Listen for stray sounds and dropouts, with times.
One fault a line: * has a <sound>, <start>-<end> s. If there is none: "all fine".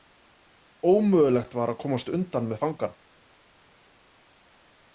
all fine